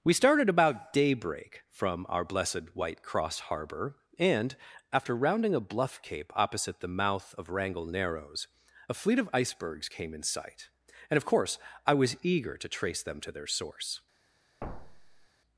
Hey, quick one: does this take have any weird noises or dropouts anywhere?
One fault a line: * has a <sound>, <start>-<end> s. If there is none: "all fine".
* has a thud, 14.6-15.3 s